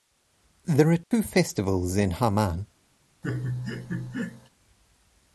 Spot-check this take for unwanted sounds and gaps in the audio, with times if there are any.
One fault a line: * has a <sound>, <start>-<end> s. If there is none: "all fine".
* has a dropout, 1.0-1.1 s
* has a laugh, 3.2-4.5 s